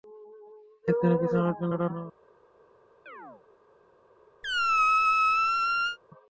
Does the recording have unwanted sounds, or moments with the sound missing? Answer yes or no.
yes